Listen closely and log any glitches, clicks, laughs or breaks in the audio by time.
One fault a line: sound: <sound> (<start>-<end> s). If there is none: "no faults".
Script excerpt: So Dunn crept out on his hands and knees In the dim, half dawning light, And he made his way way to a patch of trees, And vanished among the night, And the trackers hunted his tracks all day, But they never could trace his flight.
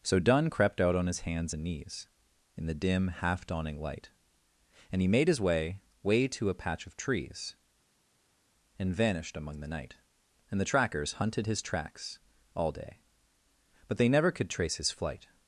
no faults